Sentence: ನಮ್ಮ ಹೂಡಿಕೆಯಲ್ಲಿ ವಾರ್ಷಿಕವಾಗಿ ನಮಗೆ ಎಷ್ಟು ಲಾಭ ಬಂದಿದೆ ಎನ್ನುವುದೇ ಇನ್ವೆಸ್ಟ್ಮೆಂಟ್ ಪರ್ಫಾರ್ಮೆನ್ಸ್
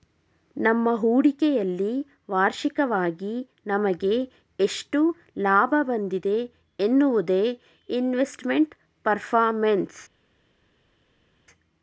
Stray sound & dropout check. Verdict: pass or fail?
pass